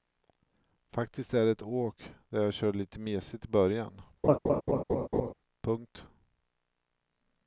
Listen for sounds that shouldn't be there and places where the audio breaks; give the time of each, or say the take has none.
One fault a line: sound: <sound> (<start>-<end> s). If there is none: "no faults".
sound: laugh (4.2-5.3 s)